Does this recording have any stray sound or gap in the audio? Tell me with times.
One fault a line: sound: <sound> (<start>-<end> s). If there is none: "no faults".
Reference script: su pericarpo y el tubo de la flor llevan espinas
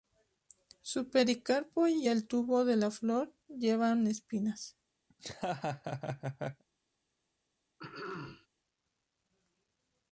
sound: laugh (5.1-6.6 s)
sound: throat clearing (7.8-8.5 s)